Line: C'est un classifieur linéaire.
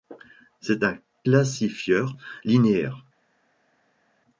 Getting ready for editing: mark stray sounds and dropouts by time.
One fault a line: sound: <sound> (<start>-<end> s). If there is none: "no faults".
no faults